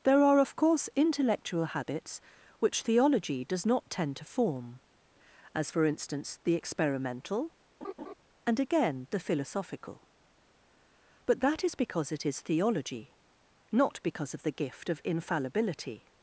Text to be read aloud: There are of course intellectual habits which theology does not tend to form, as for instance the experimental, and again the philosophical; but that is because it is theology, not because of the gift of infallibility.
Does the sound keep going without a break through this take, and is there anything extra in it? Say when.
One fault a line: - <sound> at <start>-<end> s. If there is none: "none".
- laugh at 7.8-8.1 s